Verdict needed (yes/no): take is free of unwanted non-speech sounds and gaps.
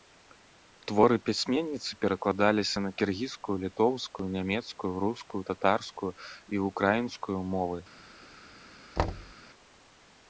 no